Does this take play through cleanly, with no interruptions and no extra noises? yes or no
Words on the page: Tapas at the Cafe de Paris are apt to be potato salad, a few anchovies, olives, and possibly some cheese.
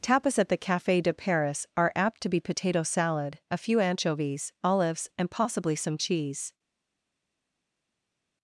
yes